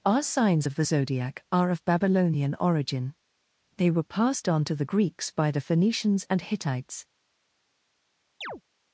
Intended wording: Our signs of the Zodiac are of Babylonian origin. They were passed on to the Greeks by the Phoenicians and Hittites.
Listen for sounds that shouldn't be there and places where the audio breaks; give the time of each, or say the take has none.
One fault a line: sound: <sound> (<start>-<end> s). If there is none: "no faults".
sound: chirp (8.4-8.6 s)